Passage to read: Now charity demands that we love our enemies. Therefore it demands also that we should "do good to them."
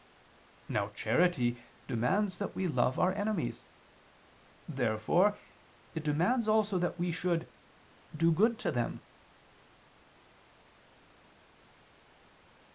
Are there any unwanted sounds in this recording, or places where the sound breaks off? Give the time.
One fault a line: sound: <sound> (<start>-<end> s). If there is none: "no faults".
no faults